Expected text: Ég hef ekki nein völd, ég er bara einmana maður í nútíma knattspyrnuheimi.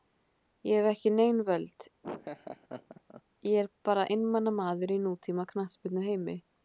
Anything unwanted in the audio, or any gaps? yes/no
yes